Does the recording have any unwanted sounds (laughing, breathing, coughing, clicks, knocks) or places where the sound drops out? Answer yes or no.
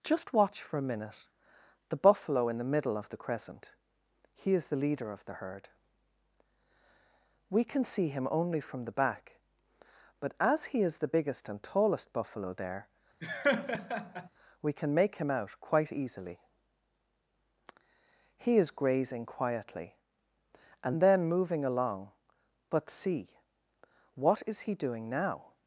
yes